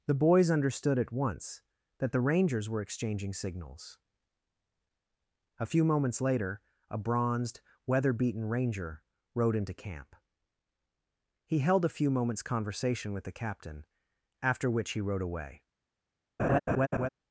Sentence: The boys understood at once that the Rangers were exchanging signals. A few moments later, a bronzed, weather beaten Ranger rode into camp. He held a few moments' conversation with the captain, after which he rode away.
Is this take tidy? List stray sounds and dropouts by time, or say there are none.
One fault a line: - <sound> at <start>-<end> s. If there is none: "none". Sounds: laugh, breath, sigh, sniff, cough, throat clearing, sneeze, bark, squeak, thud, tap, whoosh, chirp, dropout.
- laugh at 16.4-17.1 s